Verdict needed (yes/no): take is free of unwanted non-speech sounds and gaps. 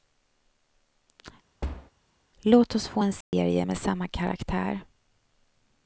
no